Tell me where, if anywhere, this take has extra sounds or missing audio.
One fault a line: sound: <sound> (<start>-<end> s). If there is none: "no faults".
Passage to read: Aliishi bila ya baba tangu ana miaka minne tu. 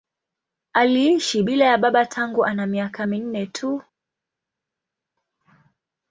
no faults